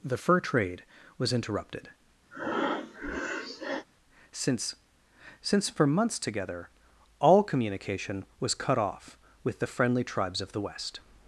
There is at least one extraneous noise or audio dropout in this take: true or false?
true